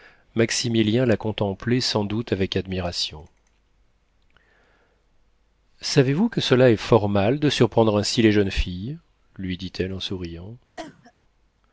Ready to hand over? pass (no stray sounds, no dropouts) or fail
fail